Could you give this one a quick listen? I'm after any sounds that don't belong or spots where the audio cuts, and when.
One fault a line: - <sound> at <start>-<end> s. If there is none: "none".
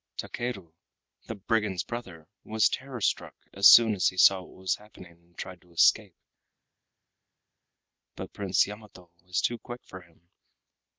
none